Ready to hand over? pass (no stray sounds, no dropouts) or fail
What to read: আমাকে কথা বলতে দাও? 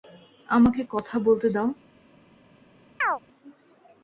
fail